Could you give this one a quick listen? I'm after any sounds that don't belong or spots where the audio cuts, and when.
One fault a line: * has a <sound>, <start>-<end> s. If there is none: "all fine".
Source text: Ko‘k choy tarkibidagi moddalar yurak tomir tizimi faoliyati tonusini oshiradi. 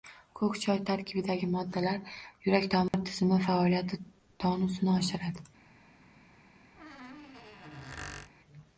* has a dropout, 2.9-2.9 s
* has a squeak, 6.8-8.3 s